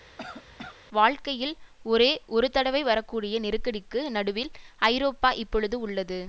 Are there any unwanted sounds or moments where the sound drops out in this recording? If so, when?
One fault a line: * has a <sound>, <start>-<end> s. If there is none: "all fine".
* has a cough, 0.2-0.8 s